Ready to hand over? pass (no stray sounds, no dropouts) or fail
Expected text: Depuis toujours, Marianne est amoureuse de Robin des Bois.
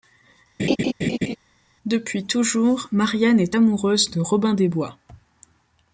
fail